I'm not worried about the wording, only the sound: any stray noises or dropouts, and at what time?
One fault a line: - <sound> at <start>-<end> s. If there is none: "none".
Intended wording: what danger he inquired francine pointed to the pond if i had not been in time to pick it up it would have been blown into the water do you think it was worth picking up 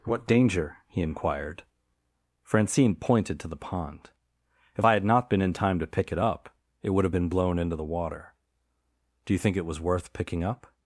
none